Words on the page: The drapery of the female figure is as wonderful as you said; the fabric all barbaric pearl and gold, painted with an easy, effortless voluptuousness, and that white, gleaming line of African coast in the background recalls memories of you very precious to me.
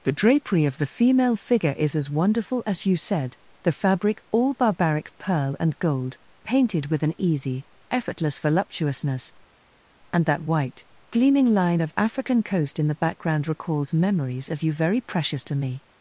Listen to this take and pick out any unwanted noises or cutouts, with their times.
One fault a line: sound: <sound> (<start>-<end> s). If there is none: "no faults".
no faults